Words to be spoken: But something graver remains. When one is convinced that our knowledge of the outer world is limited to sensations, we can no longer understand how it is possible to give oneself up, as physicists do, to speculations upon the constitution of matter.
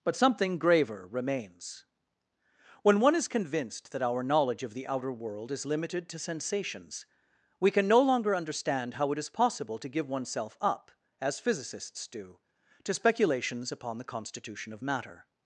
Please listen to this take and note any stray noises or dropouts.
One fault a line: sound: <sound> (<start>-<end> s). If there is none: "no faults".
no faults